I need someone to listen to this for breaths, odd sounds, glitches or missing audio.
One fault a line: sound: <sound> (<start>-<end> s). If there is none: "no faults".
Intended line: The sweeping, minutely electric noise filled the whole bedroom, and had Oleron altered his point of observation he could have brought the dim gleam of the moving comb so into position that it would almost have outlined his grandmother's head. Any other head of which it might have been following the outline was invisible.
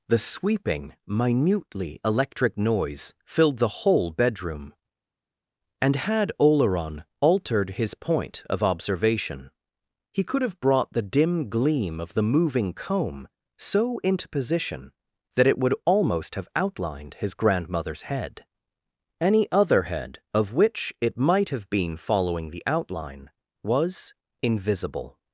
no faults